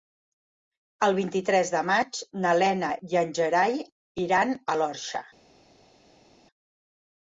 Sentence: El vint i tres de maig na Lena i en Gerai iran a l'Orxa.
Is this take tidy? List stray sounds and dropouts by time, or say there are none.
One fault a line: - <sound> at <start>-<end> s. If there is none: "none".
none